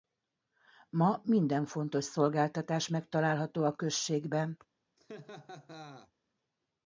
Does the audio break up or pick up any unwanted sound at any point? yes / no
yes